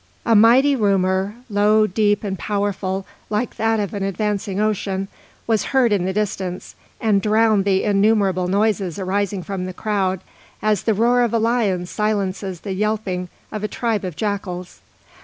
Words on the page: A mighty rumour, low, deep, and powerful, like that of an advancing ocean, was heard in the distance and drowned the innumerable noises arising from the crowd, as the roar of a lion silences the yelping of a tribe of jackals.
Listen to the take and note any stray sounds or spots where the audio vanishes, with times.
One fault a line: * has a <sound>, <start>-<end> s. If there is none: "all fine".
all fine